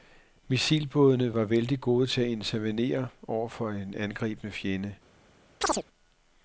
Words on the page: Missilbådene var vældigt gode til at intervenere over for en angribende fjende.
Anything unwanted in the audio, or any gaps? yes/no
yes